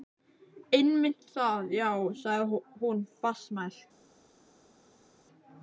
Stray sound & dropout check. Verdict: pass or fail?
pass